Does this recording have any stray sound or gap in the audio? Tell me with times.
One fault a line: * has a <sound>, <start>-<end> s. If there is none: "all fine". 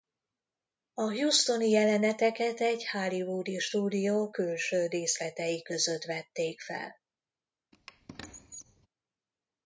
* has a squeak, 7.7-8.9 s